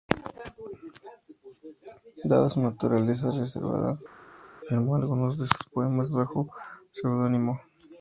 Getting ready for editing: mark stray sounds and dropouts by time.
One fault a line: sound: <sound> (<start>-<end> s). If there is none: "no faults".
no faults